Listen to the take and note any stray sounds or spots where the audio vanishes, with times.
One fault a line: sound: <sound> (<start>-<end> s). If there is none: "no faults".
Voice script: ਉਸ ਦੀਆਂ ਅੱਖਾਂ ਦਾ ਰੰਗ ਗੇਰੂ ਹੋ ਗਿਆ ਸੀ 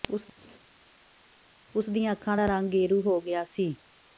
no faults